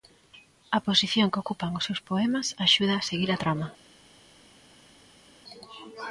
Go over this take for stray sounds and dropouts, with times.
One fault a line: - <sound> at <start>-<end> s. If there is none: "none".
none